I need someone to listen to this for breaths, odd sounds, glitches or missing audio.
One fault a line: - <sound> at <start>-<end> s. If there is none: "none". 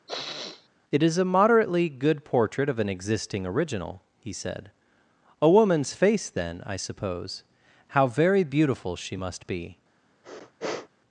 - sniff at 0.1-0.7 s
- sniff at 10.2-10.9 s